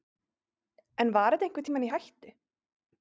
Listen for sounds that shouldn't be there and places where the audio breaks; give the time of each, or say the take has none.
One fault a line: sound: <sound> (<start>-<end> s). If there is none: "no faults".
no faults